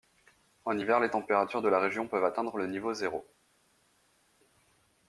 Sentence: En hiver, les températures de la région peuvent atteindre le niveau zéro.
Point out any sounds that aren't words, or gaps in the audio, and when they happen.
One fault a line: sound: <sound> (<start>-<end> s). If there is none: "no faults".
no faults